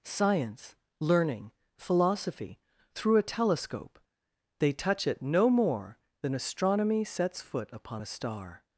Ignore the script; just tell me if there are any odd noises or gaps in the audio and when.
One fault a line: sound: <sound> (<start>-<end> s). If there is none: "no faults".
no faults